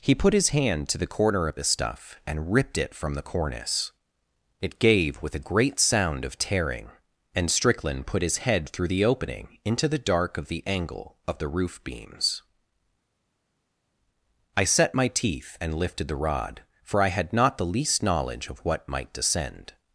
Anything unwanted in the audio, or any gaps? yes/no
no